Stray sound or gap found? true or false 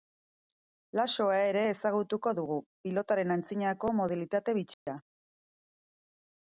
true